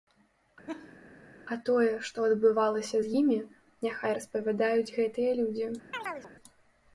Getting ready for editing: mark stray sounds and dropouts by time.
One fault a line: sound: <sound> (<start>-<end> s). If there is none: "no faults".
sound: laugh (0.7-1.0 s)
sound: chirp (5.9-6.3 s)